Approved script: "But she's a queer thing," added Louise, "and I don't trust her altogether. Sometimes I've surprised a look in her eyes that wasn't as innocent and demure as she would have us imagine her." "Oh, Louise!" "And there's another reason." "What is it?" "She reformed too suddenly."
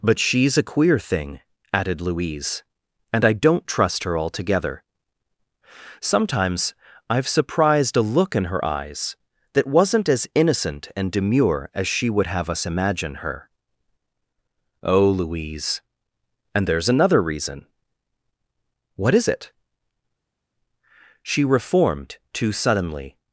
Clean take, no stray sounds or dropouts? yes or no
yes